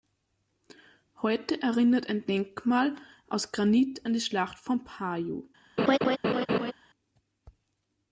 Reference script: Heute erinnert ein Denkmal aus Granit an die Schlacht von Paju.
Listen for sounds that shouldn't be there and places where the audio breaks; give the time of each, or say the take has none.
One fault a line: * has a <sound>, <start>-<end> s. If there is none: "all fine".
* has a laugh, 5.8-6.7 s